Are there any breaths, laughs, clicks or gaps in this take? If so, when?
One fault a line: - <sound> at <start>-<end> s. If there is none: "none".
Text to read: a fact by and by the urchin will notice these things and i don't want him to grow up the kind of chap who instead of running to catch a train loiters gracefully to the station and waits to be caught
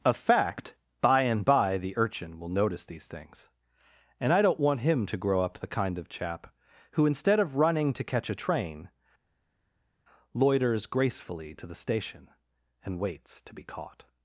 none